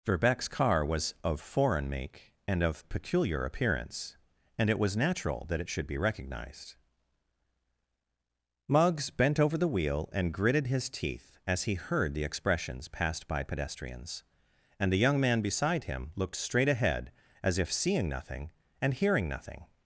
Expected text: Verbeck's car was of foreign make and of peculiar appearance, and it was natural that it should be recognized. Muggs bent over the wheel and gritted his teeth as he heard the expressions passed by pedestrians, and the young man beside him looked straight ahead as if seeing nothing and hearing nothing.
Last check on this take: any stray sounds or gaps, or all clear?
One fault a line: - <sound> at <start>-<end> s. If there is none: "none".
none